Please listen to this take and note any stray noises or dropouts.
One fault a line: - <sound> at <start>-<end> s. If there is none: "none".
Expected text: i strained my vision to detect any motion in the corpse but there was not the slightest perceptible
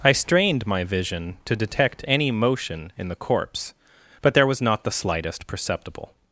none